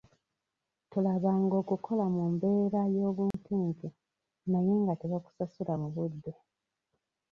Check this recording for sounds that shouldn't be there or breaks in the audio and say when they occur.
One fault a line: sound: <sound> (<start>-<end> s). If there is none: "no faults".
sound: dropout (3.3-3.3 s)